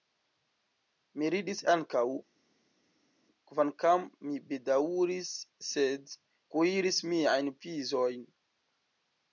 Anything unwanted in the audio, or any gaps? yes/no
no